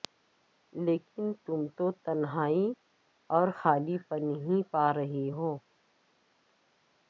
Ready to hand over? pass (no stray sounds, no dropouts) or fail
pass